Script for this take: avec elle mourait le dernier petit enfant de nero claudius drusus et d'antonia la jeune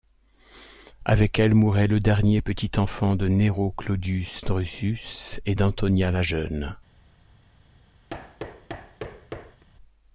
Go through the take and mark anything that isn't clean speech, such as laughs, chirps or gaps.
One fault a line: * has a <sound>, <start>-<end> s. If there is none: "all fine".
* has a thud, 8.1-9.6 s